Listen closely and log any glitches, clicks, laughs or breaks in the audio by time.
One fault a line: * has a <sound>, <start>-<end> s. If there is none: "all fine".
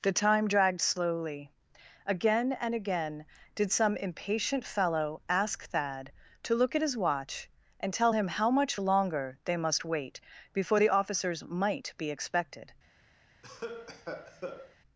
* has a cough, 13.4-14.8 s